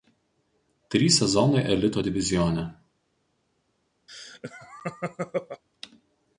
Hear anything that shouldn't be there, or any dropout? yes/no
yes